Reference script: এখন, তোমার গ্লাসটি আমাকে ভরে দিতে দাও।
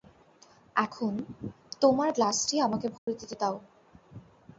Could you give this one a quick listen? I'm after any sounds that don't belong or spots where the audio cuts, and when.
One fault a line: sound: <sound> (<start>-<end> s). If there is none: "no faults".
sound: dropout (3.0-3.1 s)